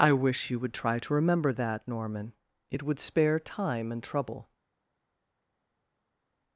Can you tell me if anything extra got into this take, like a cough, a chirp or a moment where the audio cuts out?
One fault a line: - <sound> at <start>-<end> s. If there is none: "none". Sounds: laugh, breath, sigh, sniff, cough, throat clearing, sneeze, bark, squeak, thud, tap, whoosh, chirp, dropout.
none